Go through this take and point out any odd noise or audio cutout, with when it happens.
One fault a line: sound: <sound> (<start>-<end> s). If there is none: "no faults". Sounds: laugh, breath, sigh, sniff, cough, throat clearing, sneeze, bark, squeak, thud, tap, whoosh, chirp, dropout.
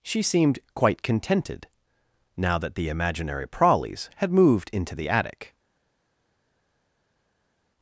no faults